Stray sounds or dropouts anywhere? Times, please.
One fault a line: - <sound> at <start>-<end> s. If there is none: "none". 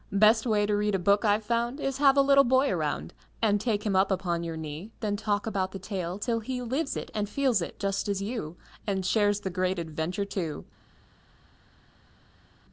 none